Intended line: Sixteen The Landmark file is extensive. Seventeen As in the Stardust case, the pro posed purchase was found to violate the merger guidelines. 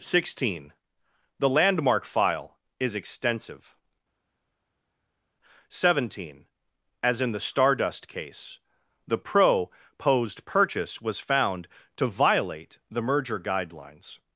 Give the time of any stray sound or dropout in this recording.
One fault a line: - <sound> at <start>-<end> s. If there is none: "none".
none